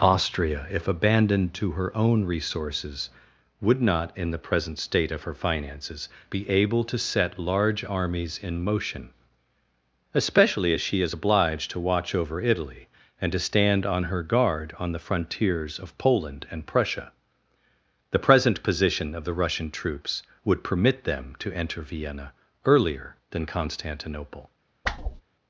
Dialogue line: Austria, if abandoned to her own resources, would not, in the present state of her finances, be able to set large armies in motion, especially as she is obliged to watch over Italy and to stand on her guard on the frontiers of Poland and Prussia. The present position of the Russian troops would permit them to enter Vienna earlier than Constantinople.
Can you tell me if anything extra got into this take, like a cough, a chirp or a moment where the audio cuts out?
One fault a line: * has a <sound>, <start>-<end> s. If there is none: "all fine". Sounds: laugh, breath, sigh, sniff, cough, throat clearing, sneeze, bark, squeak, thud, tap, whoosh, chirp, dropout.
* has a whoosh, 24.8-25.2 s